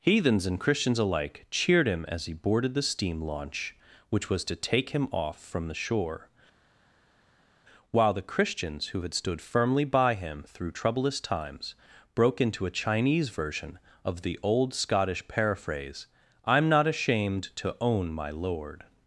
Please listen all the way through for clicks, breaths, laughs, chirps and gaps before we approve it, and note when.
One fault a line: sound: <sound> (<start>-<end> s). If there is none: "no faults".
no faults